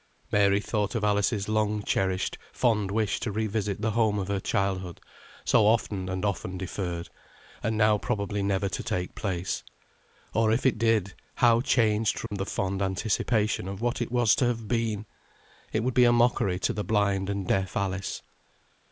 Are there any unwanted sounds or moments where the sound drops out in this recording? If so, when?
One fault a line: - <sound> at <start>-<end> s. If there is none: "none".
- dropout at 12.3-12.3 s